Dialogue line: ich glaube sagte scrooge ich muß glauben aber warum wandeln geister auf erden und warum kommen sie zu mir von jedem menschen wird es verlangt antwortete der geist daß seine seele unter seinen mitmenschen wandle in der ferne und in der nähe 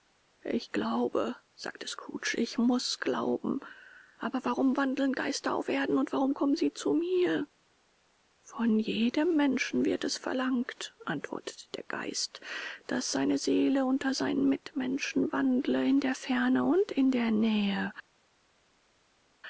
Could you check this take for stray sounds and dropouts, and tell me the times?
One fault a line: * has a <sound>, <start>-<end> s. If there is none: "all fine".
all fine